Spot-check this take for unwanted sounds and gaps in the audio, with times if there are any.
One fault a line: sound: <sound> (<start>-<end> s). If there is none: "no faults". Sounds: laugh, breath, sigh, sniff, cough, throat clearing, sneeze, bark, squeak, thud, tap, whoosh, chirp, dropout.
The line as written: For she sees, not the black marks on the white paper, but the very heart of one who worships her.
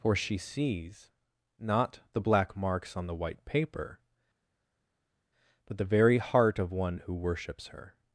no faults